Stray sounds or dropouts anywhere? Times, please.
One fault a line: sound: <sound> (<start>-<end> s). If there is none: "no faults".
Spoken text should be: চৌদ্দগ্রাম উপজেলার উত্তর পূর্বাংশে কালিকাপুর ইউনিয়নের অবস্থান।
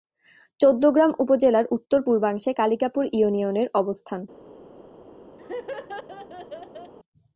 sound: laugh (5.4-6.9 s)